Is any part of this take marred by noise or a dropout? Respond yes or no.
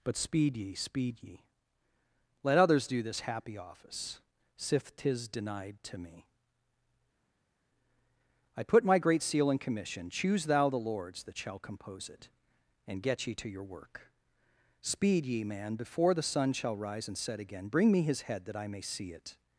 no